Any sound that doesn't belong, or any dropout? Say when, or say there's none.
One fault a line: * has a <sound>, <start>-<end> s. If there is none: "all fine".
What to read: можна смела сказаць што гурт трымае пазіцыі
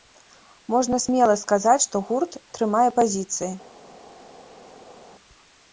all fine